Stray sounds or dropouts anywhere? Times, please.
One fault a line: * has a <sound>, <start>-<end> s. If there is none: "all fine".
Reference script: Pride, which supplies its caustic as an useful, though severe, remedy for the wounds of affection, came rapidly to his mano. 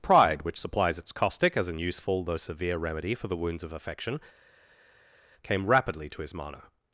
all fine